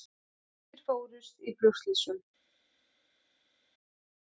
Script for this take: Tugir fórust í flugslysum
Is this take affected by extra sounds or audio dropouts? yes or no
no